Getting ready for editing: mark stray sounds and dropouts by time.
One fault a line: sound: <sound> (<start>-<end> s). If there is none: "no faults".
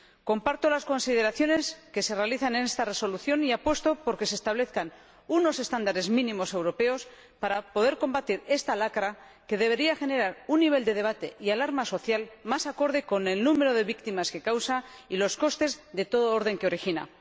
no faults